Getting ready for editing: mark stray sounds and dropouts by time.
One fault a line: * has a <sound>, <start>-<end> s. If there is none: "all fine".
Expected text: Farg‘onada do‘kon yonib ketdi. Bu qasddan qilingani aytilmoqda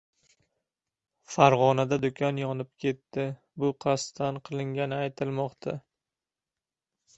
all fine